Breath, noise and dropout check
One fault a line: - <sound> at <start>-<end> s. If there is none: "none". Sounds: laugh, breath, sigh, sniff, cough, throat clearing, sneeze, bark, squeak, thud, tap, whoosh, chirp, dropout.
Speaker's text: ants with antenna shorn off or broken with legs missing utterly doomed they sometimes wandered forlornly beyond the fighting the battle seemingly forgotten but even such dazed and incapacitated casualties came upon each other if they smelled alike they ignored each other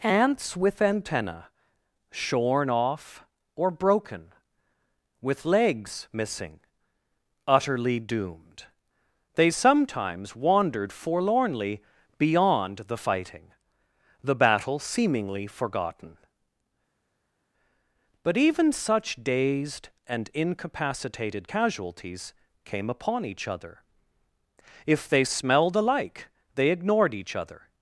none